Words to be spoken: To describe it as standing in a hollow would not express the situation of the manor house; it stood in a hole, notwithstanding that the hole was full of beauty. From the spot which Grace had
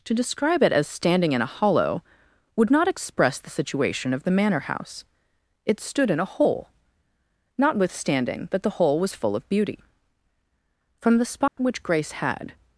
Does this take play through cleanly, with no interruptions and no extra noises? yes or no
no